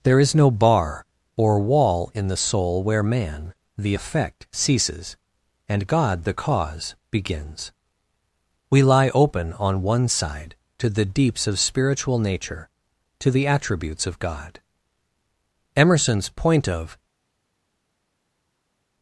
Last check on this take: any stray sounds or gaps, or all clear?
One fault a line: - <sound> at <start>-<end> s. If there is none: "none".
none